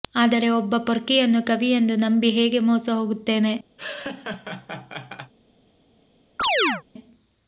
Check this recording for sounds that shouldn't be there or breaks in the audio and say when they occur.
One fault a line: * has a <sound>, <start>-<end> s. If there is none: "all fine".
* has a laugh, 3.8-5.3 s
* has a chirp, 6.4-6.8 s